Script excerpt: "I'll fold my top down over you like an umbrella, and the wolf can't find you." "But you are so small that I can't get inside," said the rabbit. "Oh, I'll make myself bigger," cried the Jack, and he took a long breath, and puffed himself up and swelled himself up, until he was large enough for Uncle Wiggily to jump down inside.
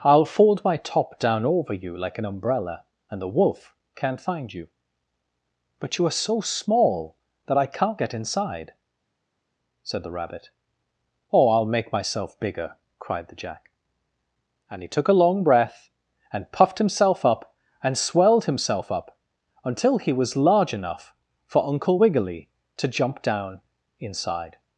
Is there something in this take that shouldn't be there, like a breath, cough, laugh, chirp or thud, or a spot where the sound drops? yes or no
no